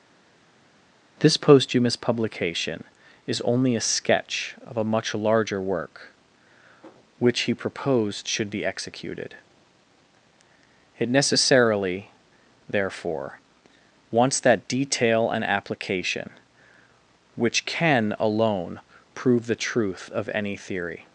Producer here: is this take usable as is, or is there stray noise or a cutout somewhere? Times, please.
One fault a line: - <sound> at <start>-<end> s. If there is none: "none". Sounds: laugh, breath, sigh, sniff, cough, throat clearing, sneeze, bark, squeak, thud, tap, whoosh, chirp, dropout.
none